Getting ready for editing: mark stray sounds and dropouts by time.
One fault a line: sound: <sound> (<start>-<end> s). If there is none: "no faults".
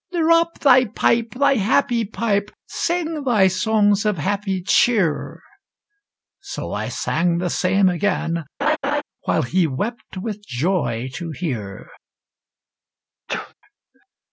sound: laugh (8.6-9.0 s)
sound: sneeze (13.3-13.5 s)